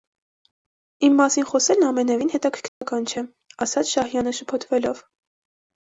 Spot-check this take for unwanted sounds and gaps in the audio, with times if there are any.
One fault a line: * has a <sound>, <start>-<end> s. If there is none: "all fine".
* has a dropout, 2.7-2.8 s